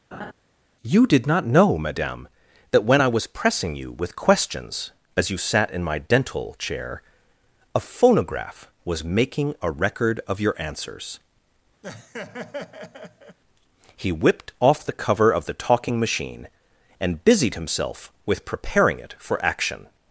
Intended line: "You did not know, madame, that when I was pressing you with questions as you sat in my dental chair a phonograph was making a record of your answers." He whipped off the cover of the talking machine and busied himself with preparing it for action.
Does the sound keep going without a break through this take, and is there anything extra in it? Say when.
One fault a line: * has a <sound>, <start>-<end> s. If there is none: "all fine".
* has a laugh, 0.1-0.3 s
* has a laugh, 11.8-13.4 s